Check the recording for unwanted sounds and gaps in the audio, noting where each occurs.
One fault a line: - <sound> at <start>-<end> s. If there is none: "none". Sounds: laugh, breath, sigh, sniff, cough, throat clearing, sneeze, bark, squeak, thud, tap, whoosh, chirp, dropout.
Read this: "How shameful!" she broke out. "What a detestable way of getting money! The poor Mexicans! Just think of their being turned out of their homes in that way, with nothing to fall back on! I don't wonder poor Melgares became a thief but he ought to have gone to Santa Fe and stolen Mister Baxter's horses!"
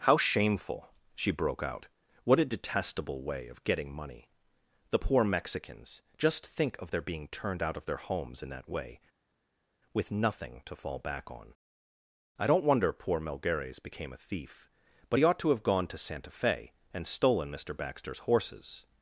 none